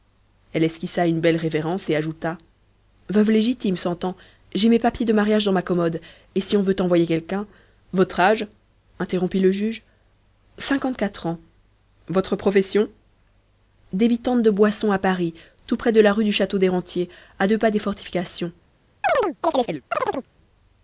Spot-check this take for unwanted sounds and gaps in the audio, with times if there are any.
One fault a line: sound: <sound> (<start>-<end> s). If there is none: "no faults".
sound: chirp (19.0-20.3 s)